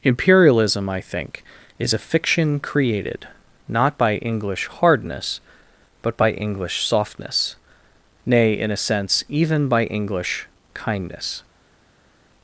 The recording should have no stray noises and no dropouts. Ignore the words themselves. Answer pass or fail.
pass